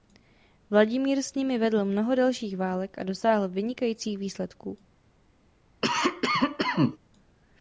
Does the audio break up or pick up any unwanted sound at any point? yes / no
yes